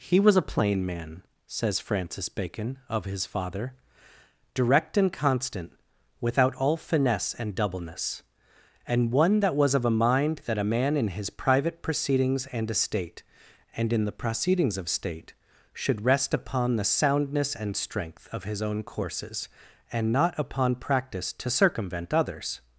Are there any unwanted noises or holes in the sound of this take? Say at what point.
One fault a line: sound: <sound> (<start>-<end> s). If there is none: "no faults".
no faults